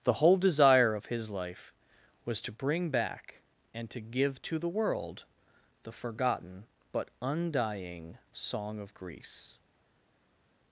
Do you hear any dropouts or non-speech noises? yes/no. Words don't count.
no